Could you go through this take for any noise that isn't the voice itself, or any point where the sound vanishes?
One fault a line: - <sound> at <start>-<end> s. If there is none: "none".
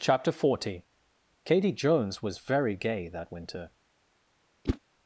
- whoosh at 4.6-4.8 s